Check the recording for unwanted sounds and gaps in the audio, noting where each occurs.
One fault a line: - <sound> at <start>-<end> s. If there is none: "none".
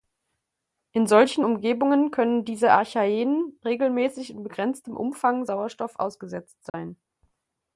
- dropout at 6.7-6.7 s